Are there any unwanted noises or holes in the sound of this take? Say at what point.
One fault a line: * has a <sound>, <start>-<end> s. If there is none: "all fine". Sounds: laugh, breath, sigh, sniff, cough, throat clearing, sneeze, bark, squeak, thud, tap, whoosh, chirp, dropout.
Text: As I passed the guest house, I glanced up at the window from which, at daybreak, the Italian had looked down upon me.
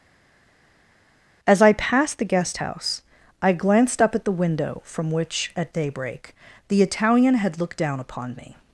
all fine